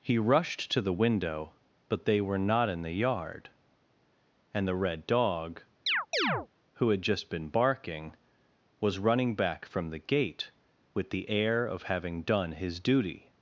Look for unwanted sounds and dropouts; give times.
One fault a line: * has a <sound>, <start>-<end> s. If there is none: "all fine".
* has a chirp, 5.9-6.5 s